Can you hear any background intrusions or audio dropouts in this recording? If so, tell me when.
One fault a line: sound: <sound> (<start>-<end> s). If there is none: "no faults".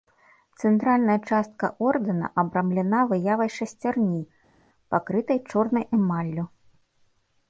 no faults